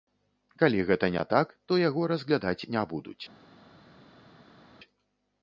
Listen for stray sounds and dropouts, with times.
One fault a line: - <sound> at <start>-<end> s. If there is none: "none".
none